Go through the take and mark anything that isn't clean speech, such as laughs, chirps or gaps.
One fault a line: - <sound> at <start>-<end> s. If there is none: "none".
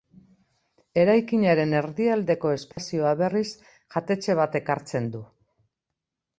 - dropout at 2.7-2.8 s